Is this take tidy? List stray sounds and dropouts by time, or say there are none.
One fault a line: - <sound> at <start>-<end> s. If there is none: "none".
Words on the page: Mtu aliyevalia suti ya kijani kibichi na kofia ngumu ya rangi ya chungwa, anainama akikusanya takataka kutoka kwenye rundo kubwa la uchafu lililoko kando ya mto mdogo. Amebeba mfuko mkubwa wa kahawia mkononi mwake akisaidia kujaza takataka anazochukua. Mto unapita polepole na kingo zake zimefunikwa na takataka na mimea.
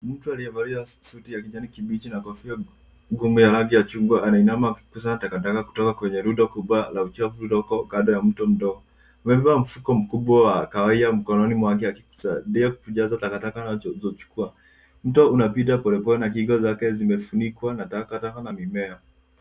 none